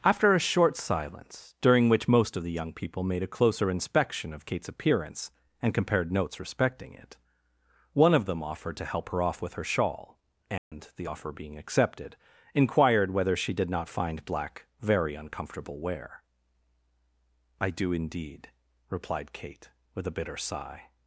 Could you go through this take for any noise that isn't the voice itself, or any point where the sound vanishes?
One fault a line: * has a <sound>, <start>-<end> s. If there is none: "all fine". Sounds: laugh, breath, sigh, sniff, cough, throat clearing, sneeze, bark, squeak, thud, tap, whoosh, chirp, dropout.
* has a dropout, 10.6-10.7 s